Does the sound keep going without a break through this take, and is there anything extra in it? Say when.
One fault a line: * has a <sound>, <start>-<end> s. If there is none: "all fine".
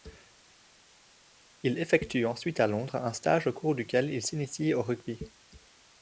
all fine